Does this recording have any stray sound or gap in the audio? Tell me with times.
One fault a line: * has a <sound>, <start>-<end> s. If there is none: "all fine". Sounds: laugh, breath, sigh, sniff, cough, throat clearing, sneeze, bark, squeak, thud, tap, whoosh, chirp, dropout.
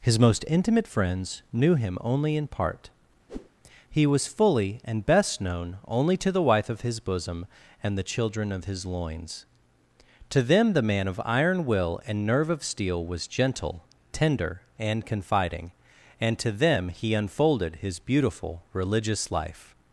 * has a whoosh, 3.3-3.5 s